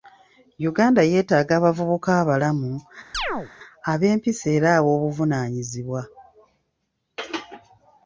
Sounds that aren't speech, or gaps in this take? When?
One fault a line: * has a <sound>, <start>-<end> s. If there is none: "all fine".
* has a chirp, 3.1-3.5 s